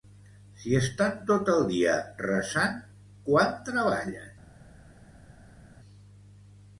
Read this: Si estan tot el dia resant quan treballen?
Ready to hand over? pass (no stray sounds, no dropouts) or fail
pass